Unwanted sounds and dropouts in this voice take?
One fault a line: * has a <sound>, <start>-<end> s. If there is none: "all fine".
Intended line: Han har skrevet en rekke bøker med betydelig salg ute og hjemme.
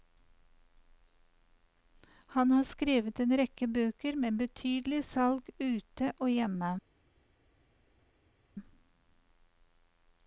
all fine